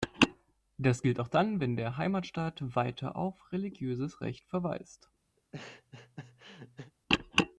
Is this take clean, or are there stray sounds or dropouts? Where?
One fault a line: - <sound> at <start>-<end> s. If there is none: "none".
- laugh at 5.4-6.9 s